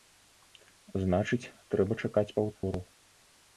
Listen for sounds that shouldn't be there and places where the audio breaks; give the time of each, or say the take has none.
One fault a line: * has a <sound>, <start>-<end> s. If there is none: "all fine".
* has a dropout, 2.6-2.6 s